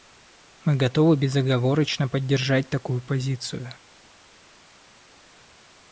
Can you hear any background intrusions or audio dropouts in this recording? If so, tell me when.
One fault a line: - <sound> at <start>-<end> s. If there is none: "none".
none